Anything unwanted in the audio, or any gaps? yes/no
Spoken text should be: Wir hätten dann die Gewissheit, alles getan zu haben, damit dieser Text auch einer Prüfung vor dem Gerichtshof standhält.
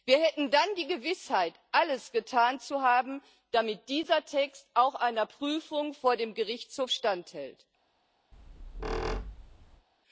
yes